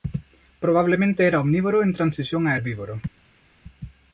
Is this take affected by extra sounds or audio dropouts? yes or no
no